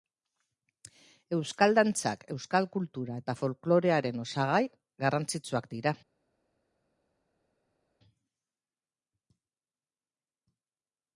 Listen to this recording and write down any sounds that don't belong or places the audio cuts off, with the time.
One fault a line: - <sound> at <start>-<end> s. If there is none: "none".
none